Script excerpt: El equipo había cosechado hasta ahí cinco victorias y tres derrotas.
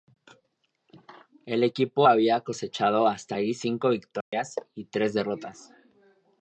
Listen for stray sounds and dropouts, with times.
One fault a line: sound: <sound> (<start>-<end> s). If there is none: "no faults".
sound: dropout (4.2-4.3 s)